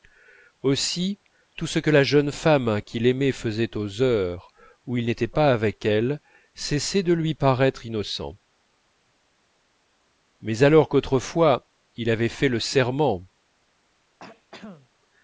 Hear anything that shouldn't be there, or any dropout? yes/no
yes